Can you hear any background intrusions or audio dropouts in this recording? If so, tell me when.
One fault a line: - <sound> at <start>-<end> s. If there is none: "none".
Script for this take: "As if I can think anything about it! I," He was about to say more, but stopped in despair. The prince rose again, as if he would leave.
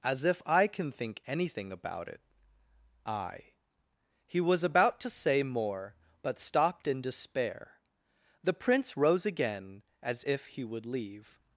none